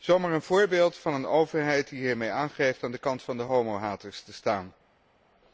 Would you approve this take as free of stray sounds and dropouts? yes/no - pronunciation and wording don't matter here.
yes